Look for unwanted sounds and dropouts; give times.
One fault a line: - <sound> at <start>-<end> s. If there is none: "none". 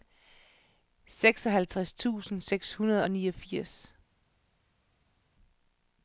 none